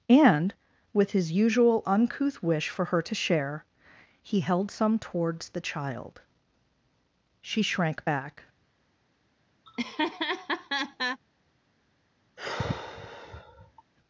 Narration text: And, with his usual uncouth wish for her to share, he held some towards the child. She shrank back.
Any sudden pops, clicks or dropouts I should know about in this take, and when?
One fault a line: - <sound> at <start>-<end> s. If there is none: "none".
- laugh at 9.7-11.2 s
- sigh at 12.4-13.8 s